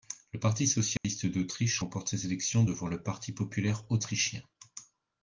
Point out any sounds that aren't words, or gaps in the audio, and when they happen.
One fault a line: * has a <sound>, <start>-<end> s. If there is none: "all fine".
* has a dropout, 1.0-1.0 s